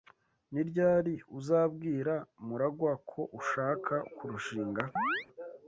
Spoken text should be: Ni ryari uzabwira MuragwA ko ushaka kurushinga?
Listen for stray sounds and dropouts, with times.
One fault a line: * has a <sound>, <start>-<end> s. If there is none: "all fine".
* has a chirp, 5.0-5.3 s